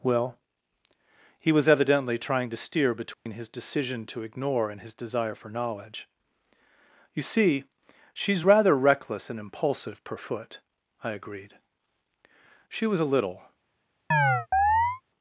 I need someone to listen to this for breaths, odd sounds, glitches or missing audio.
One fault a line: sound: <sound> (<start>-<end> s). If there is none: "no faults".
sound: dropout (3.1-3.3 s)
sound: chirp (14.1-15.0 s)